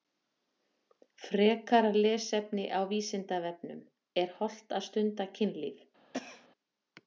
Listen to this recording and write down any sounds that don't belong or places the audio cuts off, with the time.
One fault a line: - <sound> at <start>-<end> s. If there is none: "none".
- cough at 6.1-6.5 s